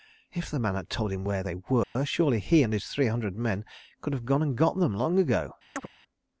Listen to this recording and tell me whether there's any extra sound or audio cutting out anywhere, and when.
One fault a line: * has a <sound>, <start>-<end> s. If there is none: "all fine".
* has a dropout, 1.8-2.0 s
* has a chirp, 5.8-5.9 s